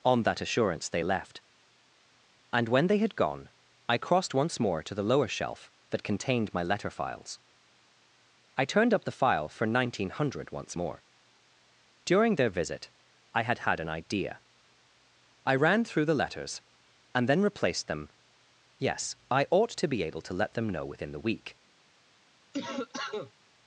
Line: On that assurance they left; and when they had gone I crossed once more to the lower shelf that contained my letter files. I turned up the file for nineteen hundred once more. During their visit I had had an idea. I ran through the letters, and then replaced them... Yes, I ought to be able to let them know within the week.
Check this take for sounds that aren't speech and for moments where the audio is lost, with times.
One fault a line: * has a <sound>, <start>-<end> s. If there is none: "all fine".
* has a cough, 22.5-23.3 s